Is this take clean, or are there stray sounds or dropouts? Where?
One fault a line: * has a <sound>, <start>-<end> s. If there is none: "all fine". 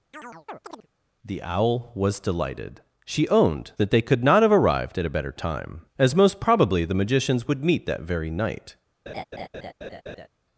* has a chirp, 0.1-0.9 s
* has a laugh, 9.1-10.3 s